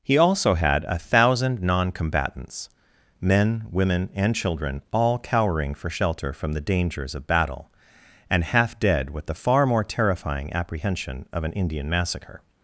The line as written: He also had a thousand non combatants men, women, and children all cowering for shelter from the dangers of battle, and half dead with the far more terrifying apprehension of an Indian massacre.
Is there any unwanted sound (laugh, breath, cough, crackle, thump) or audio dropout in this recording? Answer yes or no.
no